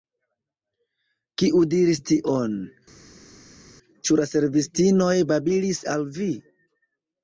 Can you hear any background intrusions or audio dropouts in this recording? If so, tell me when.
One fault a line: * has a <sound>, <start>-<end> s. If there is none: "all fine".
all fine